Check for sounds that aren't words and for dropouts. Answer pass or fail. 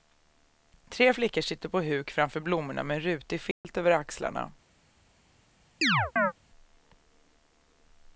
fail